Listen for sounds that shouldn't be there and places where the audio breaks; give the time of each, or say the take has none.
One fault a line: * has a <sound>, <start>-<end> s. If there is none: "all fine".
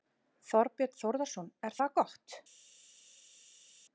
all fine